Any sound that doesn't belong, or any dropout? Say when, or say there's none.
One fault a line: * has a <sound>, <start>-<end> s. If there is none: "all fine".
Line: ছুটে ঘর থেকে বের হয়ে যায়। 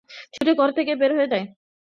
* has a dropout, 0.4-0.4 s